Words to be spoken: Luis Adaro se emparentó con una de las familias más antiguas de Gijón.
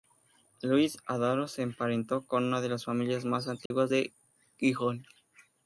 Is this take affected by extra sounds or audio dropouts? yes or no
yes